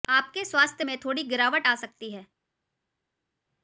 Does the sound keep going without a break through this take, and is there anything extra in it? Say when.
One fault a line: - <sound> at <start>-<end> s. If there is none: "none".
none